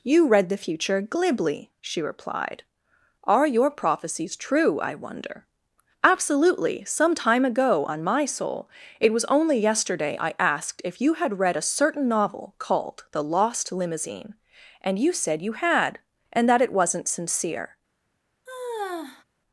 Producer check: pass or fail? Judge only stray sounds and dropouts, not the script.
fail